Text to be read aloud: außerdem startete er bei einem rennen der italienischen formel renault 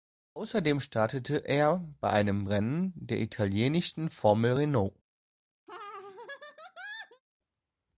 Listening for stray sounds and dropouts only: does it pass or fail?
fail